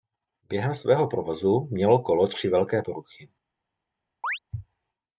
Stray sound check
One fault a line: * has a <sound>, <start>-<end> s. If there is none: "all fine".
* has a chirp, 4.2-4.4 s